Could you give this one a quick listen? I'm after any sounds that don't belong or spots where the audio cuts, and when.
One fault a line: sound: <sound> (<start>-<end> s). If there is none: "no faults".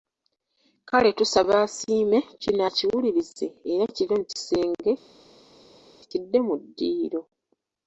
no faults